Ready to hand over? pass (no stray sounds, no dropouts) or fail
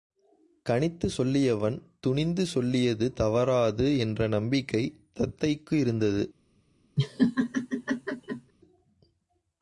fail